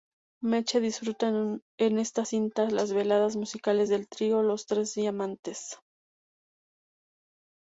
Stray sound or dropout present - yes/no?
no